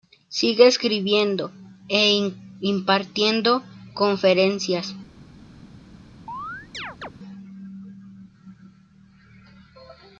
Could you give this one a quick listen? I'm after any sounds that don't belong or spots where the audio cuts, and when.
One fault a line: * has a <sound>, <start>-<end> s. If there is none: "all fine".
* has a chirp, 6.3-7.1 s